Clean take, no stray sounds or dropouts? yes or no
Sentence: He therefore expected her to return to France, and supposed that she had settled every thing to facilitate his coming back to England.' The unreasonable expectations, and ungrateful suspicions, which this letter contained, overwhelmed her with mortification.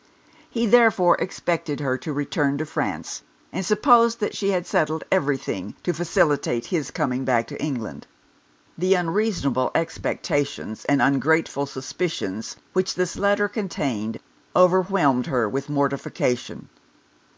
yes